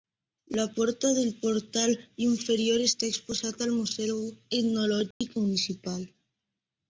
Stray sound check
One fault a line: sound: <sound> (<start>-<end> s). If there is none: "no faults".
sound: dropout (5.1-5.2 s)